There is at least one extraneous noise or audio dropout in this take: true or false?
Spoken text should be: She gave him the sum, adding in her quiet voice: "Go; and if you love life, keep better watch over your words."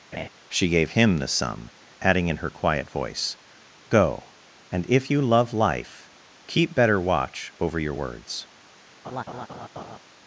true